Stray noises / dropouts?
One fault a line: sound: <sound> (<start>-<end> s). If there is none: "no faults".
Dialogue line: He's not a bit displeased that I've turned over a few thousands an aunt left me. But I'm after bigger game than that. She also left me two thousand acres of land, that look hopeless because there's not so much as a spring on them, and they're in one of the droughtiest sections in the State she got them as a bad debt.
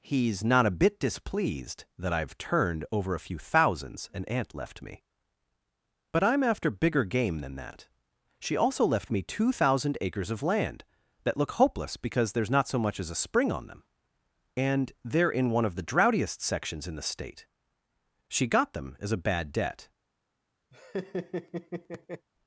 sound: laugh (20.7-22.3 s)